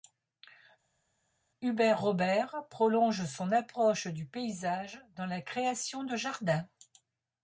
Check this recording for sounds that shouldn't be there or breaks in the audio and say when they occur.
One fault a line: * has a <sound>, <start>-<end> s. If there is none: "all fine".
all fine